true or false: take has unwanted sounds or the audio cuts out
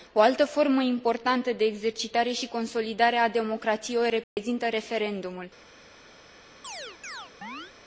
true